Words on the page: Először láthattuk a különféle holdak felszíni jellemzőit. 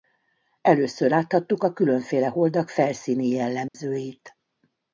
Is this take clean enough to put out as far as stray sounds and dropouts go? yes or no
no